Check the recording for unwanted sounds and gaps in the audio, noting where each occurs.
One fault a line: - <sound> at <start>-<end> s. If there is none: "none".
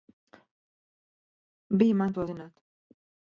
none